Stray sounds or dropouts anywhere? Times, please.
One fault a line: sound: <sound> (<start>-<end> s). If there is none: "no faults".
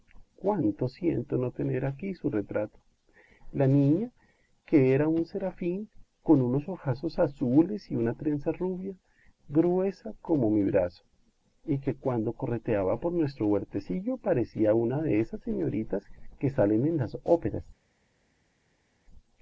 no faults